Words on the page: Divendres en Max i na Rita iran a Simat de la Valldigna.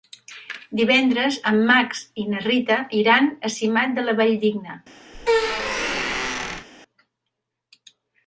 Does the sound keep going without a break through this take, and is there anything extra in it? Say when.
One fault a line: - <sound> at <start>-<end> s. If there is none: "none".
- squeak at 5.1-6.7 s